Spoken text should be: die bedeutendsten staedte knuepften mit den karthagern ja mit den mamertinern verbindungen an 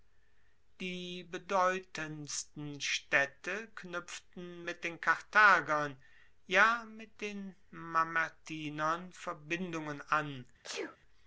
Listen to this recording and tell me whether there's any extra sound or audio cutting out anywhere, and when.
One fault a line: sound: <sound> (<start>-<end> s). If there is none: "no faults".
sound: sneeze (10.6-11.0 s)